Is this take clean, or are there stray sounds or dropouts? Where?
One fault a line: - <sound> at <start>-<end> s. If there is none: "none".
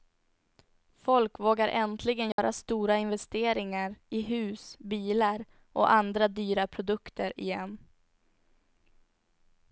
- dropout at 2.3-2.4 s